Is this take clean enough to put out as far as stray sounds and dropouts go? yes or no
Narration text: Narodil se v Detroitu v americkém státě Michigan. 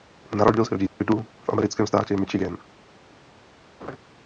no